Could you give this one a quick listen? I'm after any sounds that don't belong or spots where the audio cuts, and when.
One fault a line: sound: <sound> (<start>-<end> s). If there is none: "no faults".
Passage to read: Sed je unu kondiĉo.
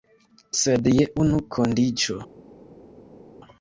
no faults